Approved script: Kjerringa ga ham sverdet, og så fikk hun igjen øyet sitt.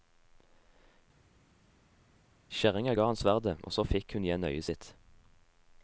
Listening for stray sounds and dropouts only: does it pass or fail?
pass